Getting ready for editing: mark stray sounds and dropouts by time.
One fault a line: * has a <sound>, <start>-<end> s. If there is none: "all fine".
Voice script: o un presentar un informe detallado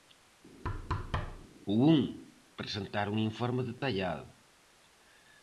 * has a thud, 0.6-1.5 s
* has a dropout, 3.8-3.8 s